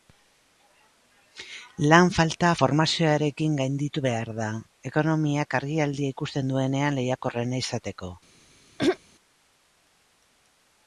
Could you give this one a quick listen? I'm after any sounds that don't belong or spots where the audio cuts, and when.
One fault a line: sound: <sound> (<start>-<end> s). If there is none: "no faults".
sound: throat clearing (8.8-9.0 s)